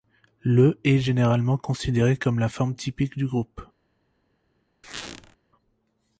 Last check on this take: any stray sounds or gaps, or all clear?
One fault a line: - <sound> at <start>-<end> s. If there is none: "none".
- squeak at 4.8-5.4 s